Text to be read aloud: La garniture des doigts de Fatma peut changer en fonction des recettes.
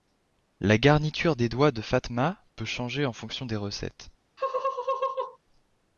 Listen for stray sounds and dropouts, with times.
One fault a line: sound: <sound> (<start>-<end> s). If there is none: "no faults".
sound: laugh (4.4-5.4 s)